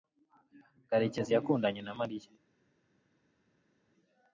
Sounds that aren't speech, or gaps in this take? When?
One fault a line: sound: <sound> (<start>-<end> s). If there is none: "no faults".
no faults